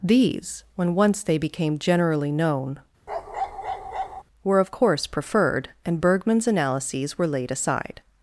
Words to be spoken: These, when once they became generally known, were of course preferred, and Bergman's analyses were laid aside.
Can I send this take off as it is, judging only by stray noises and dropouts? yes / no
no